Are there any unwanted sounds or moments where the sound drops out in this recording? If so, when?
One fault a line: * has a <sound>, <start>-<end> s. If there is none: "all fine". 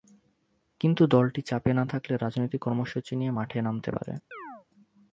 * has a chirp, 4.3-4.7 s